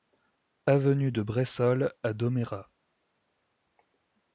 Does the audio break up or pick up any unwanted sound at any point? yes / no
no